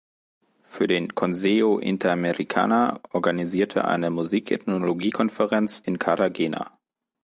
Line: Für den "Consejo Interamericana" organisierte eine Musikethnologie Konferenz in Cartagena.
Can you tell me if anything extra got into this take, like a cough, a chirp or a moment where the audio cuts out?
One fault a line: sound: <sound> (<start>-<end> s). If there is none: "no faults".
no faults